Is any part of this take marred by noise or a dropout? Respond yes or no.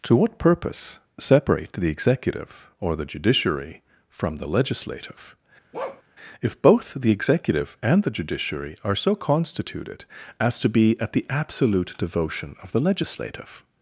yes